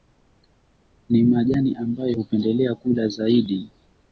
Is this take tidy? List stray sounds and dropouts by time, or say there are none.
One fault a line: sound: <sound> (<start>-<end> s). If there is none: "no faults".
no faults